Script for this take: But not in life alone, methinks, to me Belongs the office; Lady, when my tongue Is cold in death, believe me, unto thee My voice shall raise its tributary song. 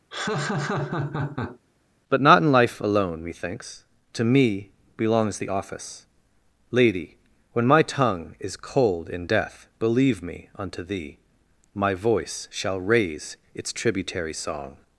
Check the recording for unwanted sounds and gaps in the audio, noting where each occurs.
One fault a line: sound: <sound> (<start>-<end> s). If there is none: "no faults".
sound: laugh (0.1-1.6 s)